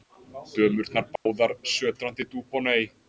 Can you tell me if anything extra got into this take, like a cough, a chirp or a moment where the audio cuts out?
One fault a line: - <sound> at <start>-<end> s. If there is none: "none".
- dropout at 1.2-1.3 s